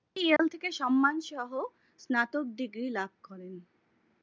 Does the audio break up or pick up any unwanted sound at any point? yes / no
yes